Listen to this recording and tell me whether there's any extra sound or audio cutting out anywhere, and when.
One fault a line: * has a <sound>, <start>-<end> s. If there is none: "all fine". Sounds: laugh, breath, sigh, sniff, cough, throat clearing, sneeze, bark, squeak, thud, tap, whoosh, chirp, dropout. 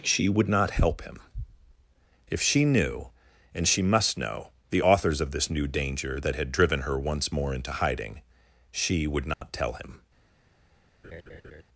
* has a dropout, 9.3-9.4 s
* has a laugh, 11.0-11.6 s